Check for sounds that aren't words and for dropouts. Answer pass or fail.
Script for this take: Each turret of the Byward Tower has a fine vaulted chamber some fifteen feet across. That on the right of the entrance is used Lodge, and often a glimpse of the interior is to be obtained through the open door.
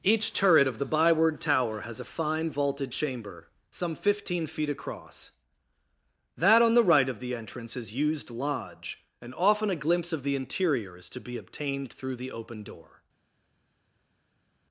pass